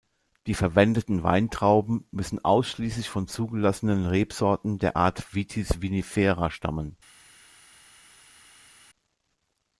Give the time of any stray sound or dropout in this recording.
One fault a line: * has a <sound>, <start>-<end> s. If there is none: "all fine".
all fine